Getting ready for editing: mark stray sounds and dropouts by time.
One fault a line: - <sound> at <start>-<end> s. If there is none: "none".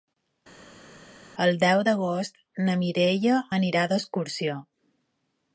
none